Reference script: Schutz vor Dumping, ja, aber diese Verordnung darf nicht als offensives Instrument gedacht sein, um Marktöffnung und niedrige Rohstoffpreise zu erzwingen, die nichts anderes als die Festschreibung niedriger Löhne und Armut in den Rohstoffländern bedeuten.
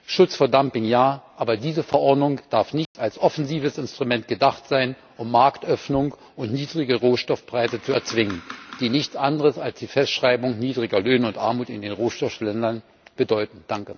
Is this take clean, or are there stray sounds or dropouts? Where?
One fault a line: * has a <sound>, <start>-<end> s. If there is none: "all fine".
* has a dropout, 2.9-2.9 s